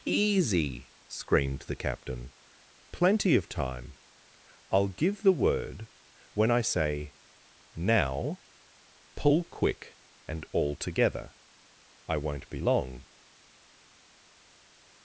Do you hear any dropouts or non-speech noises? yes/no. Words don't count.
no